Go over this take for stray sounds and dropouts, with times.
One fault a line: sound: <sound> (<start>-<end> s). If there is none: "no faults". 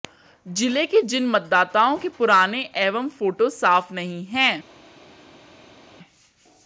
no faults